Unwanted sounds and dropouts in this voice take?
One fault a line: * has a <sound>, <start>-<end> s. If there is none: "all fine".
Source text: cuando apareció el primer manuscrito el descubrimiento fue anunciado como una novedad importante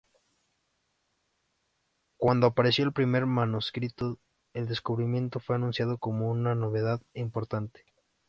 all fine